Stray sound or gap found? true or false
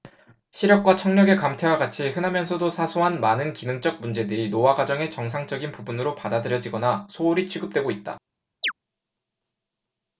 true